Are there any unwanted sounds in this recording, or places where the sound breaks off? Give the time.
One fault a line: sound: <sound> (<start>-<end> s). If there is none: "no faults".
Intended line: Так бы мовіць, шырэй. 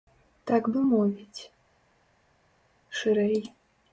no faults